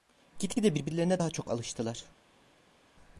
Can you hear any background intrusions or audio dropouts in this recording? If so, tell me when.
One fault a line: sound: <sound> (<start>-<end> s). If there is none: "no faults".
no faults